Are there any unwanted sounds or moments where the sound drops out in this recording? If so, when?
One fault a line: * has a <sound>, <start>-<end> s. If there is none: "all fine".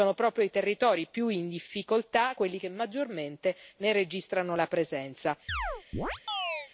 * has a chirp, 5.5-6.7 s